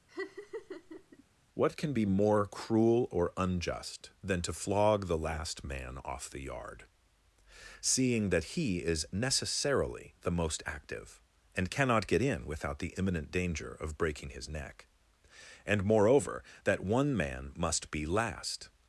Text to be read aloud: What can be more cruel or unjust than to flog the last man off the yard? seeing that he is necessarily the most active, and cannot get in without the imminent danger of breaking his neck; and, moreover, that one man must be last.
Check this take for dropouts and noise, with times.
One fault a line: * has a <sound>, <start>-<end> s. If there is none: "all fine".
* has a laugh, 0.1-1.2 s